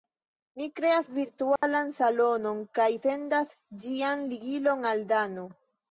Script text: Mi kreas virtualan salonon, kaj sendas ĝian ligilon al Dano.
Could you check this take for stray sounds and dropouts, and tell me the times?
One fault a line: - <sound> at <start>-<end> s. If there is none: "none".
- dropout at 1.6-1.6 s